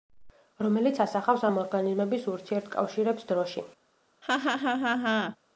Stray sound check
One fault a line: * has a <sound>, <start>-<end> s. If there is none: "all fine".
* has a laugh, 4.2-5.4 s